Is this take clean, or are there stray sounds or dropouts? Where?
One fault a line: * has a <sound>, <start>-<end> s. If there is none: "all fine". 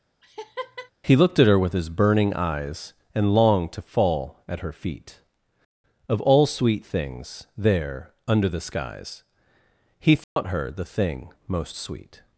* has a laugh, 0.2-0.9 s
* has a dropout, 10.2-10.4 s